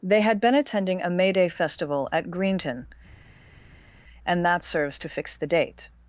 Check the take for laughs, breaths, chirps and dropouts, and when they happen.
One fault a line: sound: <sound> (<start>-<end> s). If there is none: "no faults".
no faults